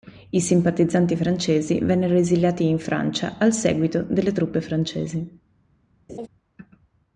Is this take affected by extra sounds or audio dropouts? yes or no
yes